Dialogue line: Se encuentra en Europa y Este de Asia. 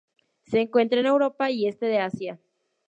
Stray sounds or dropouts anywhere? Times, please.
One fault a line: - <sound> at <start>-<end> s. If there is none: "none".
none